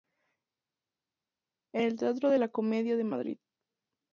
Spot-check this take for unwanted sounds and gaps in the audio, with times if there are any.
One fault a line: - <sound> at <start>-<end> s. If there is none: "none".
none